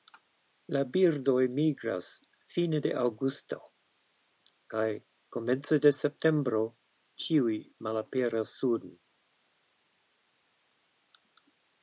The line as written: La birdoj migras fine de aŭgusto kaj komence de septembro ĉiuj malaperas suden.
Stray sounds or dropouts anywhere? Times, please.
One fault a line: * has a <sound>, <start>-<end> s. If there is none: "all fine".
all fine